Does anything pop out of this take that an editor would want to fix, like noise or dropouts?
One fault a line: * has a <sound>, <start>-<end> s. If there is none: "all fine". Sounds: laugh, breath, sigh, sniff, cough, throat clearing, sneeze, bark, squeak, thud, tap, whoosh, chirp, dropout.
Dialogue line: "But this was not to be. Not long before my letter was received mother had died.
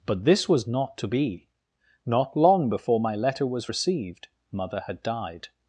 all fine